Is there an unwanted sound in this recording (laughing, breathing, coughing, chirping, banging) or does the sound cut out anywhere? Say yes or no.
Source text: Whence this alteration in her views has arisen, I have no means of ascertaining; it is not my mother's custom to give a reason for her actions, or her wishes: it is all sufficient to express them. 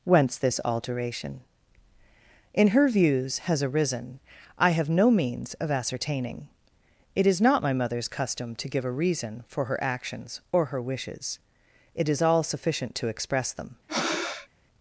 yes